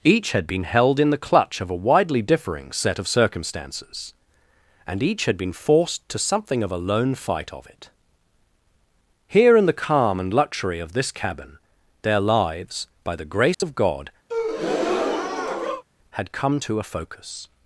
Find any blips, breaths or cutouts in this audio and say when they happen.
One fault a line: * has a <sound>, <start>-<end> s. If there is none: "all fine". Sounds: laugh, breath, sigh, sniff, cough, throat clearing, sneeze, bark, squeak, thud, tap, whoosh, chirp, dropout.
* has a dropout, 13.5-13.6 s
* has a breath, 14.3-15.8 s